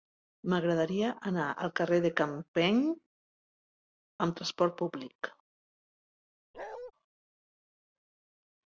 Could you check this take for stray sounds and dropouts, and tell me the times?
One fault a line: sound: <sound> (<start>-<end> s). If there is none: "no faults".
sound: bark (6.5-6.9 s)